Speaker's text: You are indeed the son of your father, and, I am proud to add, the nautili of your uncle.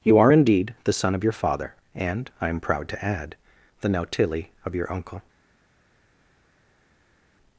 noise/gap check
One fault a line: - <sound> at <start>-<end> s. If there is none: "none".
none